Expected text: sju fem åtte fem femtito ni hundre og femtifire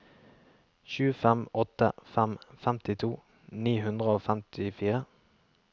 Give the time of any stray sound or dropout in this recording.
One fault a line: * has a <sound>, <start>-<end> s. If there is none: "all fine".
all fine